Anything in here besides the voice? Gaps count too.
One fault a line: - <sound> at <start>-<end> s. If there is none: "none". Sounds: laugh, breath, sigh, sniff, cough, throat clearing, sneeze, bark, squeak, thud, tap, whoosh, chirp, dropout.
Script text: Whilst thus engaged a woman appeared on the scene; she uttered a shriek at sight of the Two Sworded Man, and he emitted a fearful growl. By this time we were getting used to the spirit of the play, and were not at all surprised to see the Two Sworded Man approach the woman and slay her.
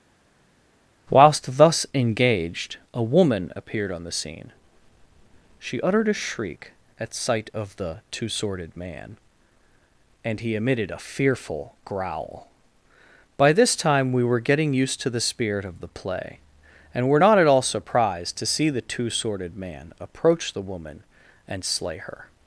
none